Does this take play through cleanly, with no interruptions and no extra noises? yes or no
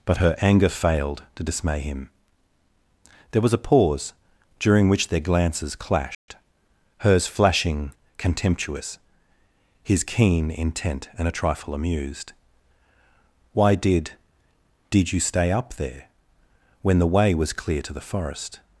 no